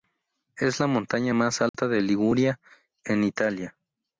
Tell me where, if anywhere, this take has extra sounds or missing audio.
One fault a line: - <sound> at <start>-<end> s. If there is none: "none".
- dropout at 1.7-1.7 s